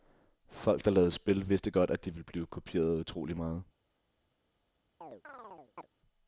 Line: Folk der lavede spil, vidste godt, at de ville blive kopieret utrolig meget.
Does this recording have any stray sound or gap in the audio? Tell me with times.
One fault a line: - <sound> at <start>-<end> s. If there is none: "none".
- chirp at 5.0-5.9 s